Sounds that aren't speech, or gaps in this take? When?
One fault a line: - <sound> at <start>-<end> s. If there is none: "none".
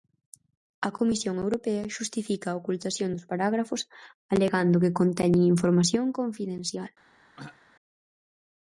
- throat clearing at 7.4-7.6 s